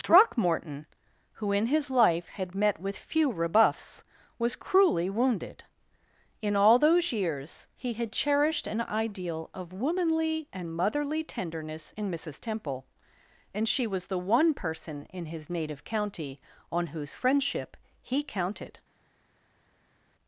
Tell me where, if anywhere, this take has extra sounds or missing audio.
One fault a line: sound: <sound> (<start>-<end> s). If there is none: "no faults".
no faults